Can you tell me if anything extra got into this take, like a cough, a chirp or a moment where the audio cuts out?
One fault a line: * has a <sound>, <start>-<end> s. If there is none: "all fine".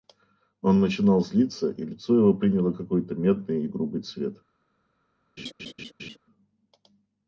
* has a laugh, 5.4-6.2 s